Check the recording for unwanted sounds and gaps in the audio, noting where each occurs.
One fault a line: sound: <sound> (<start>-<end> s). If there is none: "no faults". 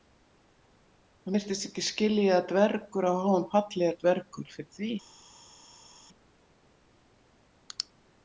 no faults